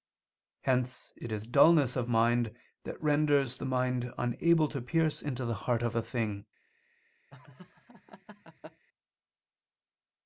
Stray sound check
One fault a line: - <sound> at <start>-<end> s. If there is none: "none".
- laugh at 7.3-8.8 s